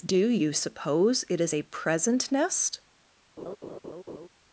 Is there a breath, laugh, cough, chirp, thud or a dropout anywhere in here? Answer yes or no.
yes